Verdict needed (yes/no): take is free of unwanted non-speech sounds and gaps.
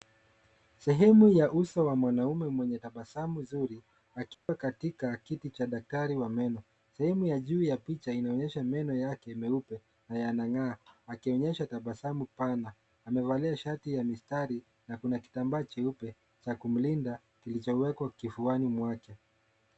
no